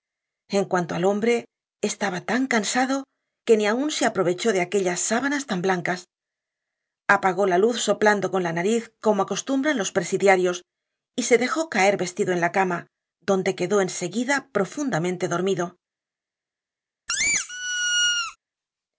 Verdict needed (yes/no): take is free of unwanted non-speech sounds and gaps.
no